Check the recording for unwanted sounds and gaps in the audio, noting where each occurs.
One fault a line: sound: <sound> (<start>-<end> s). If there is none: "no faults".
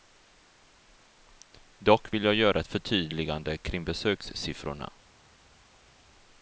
no faults